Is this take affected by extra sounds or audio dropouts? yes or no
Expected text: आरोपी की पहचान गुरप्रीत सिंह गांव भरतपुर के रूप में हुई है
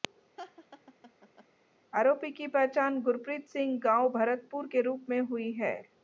yes